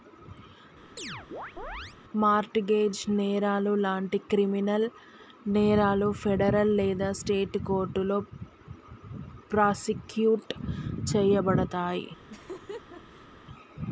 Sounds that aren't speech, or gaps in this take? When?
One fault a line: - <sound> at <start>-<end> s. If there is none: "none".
- chirp at 1.0-2.0 s
- laugh at 12.3-13.3 s